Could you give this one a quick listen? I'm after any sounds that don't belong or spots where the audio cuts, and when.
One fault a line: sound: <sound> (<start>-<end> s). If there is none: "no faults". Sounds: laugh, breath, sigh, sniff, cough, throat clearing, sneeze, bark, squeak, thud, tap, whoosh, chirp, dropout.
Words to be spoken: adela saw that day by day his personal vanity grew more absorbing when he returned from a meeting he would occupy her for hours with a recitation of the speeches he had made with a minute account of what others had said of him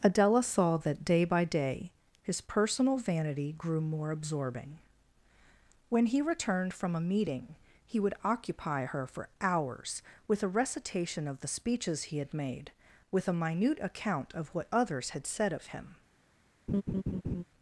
sound: laugh (16.7-17.4 s)